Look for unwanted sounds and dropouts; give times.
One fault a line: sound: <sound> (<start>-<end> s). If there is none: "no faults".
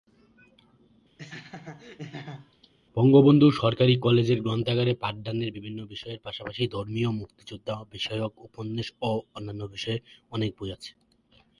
sound: laugh (1.2-2.7 s)